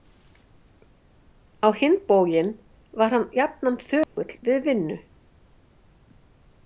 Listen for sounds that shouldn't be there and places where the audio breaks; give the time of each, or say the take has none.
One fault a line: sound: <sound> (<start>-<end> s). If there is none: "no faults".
sound: dropout (4.0-4.2 s)